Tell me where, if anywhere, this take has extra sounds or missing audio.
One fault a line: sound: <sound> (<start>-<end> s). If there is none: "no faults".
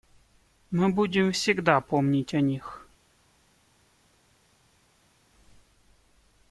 no faults